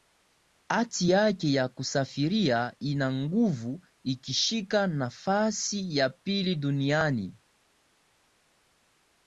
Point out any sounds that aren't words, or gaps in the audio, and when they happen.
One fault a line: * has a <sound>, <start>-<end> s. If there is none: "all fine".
all fine